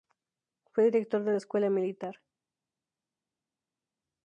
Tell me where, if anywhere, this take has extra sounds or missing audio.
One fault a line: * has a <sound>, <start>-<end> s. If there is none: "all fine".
all fine